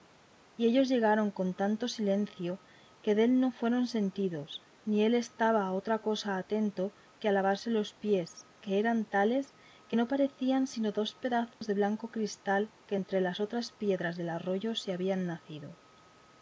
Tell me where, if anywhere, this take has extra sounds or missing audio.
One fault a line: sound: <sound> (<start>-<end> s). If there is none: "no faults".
sound: dropout (11.5-11.6 s)